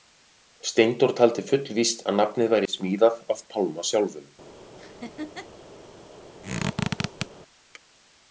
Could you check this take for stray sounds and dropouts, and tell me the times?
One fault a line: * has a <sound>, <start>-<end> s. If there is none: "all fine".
* has a laugh, 4.8-5.5 s
* has a squeak, 6.4-7.3 s